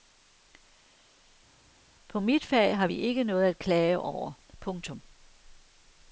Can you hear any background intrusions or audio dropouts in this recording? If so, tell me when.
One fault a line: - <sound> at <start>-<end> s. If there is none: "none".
none